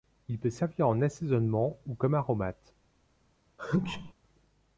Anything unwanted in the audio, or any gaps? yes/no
yes